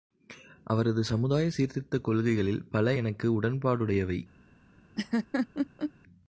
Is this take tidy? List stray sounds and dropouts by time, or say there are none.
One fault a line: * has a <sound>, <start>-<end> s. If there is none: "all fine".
* has a laugh, 5.0-5.9 s